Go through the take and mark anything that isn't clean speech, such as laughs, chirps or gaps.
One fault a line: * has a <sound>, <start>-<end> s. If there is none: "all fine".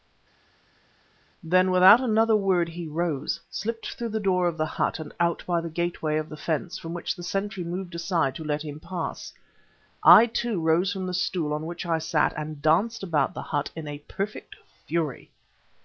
all fine